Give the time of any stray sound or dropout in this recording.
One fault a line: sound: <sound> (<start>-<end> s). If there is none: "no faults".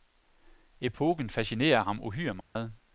sound: dropout (2.4-2.6 s)